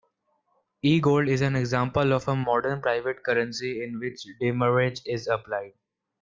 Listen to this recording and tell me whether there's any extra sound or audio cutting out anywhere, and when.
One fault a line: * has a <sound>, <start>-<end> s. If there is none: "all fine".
all fine